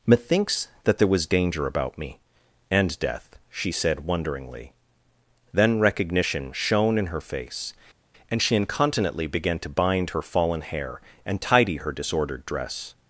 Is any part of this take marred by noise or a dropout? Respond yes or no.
no